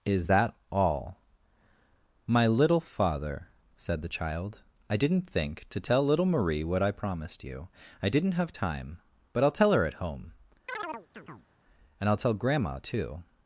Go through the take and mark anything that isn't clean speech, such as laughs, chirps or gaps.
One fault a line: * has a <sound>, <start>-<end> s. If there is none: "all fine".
* has a chirp, 10.7-11.5 s